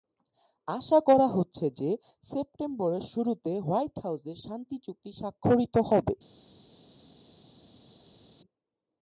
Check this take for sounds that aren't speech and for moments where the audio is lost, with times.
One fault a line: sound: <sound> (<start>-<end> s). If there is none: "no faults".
no faults